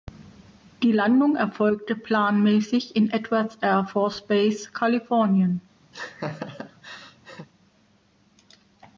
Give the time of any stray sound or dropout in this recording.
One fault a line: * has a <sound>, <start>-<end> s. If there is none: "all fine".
* has a laugh, 5.9-7.5 s